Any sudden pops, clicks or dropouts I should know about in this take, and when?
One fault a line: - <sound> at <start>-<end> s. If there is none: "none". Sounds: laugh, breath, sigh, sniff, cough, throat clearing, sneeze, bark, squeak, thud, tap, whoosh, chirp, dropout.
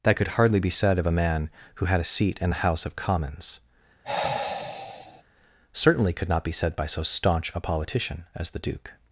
- sigh at 4.0-5.2 s